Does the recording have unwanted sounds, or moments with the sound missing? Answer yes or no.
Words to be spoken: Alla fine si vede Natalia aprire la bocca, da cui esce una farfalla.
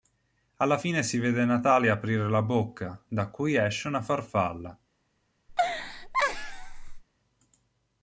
yes